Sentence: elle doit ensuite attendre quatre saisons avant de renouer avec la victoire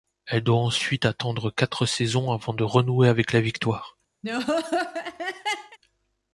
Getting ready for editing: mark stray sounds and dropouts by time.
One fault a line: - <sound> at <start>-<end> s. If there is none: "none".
- laugh at 4.2-5.8 s